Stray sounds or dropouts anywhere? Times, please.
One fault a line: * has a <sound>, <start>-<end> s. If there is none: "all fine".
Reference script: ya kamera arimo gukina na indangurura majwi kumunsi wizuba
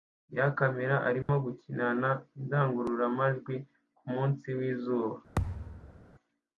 * has a dropout, 1.2-1.3 s
* has a thud, 5.4-6.0 s